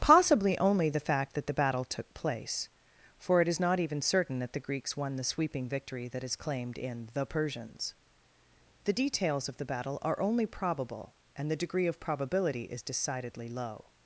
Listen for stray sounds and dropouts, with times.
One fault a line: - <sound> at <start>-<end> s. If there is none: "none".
none